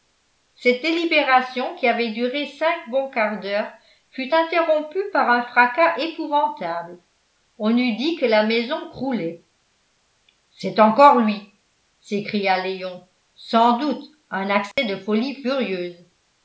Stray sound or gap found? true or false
true